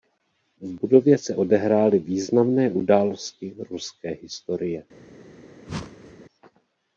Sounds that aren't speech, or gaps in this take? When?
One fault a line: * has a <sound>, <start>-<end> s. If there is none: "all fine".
* has a whoosh, 5.7-6.2 s